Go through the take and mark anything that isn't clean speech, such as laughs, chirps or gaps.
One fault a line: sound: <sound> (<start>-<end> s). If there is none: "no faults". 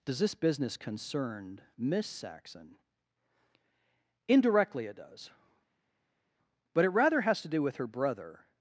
no faults